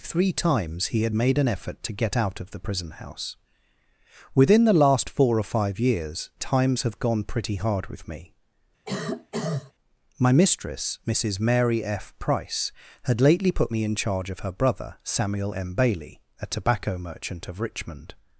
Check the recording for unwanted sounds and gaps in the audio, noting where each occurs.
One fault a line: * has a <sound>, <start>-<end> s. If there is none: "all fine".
* has a cough, 8.9-9.7 s